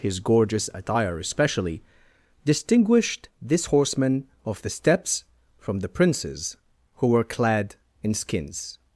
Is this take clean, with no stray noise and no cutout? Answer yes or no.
yes